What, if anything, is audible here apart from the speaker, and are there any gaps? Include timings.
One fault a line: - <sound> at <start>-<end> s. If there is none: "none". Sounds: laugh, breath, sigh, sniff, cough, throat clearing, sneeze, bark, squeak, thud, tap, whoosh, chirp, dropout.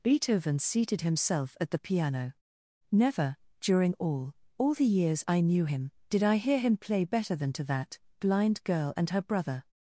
none